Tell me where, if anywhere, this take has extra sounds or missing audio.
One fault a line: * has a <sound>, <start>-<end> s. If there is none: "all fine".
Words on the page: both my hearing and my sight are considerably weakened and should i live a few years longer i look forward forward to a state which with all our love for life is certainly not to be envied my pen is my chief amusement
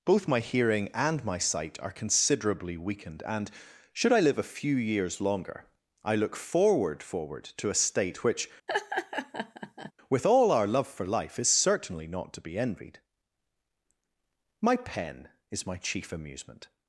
* has a laugh, 8.7-9.9 s